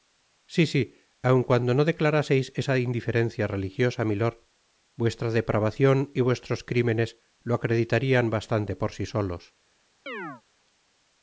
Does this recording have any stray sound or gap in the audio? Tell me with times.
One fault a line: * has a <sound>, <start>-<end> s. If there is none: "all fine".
* has a chirp, 10.1-10.4 s